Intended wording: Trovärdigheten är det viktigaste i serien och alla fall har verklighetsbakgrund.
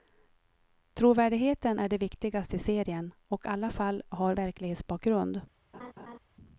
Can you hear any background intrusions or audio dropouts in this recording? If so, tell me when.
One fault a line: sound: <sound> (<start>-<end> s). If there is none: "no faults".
sound: laugh (5.7-6.2 s)